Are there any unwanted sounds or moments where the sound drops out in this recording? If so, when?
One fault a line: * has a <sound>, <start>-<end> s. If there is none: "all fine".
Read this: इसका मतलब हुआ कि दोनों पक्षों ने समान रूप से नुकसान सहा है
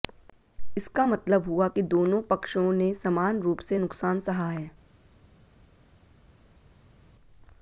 all fine